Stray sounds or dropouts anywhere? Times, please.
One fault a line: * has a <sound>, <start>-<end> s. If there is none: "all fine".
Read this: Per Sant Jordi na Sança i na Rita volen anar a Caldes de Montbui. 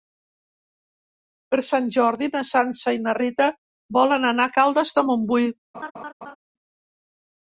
* has a laugh, 5.7-6.4 s